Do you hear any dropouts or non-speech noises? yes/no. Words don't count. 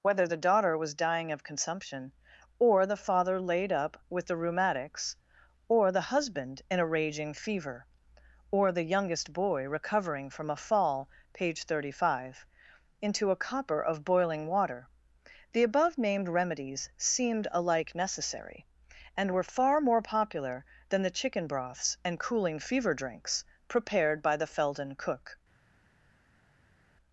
no